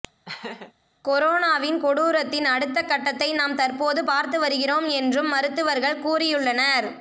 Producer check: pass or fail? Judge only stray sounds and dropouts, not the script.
fail